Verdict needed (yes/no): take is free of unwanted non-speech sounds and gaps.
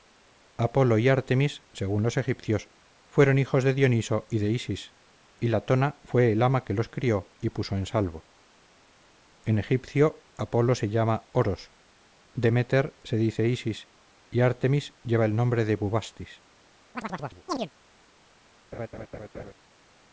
no